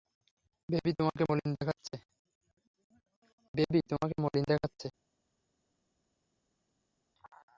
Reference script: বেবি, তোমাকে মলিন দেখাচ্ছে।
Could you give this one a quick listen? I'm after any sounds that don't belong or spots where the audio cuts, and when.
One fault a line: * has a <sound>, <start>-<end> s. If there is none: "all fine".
all fine